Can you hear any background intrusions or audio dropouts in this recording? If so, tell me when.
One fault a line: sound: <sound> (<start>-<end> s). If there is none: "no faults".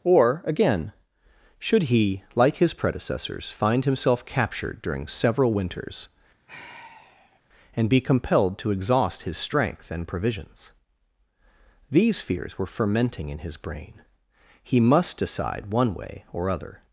sound: sigh (6.5-7.4 s)